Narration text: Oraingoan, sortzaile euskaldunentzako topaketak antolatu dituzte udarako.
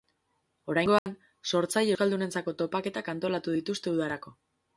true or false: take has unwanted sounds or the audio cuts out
true